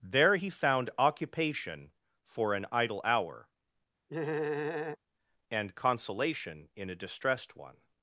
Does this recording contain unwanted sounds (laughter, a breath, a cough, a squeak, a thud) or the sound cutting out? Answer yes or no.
yes